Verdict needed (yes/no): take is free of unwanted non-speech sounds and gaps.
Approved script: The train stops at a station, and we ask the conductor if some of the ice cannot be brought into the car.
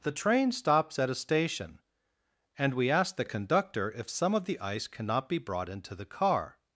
yes